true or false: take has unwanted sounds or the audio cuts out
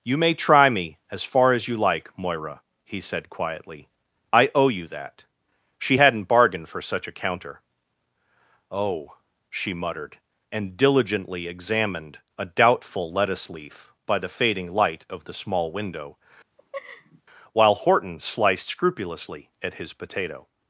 true